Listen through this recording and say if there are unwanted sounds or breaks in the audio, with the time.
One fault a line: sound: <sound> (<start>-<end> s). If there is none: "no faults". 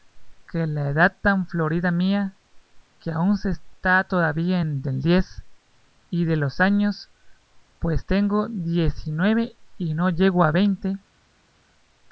no faults